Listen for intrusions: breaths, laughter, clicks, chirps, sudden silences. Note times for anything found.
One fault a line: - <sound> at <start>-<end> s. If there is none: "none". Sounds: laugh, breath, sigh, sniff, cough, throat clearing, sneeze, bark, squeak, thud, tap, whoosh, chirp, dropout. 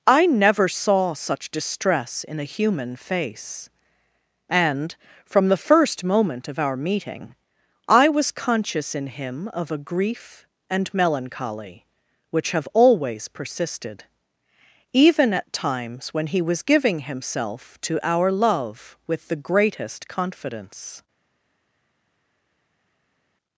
none